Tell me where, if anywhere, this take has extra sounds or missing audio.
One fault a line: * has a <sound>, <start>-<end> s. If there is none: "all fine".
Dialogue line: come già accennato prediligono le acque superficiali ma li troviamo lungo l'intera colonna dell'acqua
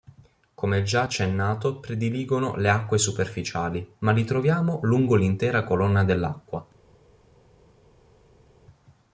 all fine